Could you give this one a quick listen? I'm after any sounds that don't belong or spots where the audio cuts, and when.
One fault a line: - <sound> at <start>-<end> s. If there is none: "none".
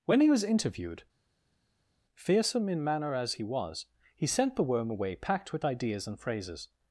none